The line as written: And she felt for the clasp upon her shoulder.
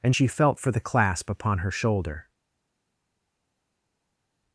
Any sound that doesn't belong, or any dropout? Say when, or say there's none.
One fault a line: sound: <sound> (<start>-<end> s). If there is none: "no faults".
no faults